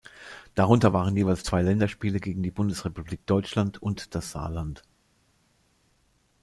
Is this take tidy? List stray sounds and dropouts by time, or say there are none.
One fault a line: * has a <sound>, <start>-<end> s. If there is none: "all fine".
all fine